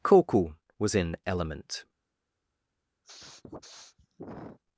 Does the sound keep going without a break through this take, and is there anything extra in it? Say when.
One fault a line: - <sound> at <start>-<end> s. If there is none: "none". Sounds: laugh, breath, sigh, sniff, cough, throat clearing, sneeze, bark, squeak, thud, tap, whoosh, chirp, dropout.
- sniff at 3.0-4.6 s